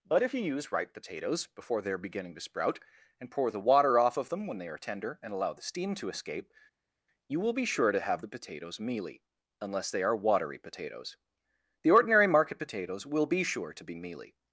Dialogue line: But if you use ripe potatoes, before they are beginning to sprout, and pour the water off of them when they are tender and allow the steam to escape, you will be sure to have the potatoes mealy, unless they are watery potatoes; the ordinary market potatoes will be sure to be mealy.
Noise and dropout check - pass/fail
pass